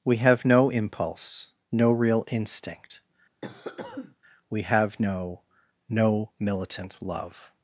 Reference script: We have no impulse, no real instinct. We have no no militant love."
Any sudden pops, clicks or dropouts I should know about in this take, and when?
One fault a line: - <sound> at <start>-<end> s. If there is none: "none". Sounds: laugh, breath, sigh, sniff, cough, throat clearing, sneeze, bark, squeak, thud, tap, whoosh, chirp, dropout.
- cough at 3.4-4.2 s